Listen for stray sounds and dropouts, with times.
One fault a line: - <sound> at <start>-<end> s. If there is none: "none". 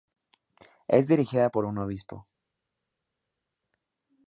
none